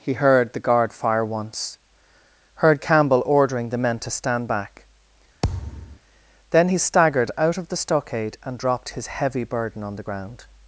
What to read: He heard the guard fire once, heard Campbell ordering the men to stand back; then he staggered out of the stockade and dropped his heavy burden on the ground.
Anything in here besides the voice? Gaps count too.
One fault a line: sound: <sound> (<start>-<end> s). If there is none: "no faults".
sound: thud (5.4-6.0 s)